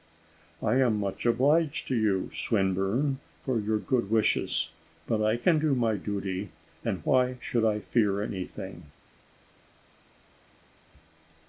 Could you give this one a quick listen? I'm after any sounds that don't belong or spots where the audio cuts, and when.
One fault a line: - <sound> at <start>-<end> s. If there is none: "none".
none